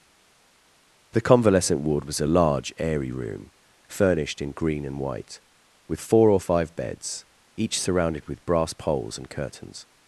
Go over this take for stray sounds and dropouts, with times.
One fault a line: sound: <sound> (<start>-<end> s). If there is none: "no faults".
no faults